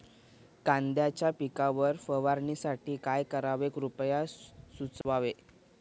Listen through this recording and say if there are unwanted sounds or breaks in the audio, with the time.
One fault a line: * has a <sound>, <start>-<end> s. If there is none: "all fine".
* has a dropout, 5.0-5.0 s